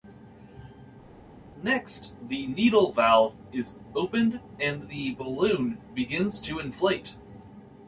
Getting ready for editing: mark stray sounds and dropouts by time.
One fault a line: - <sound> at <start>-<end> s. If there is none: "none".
none